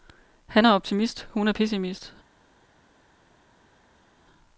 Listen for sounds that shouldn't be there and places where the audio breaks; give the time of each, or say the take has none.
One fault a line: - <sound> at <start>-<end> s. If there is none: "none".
none